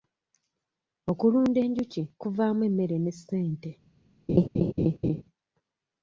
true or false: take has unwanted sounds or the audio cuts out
true